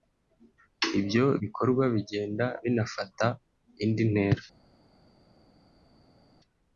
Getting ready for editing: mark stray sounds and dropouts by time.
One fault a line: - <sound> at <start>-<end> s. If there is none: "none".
none